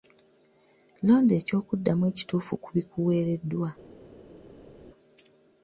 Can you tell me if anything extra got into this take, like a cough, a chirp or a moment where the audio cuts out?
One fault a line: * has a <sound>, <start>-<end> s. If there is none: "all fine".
all fine